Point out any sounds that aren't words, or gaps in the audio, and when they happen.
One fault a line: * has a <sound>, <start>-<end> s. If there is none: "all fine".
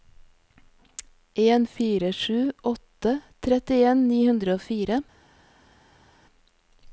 all fine